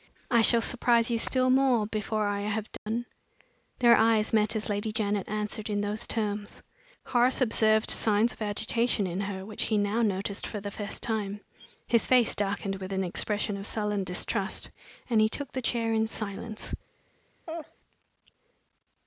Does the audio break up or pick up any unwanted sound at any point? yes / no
yes